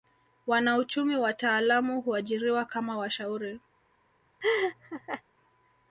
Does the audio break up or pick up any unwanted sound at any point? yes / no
yes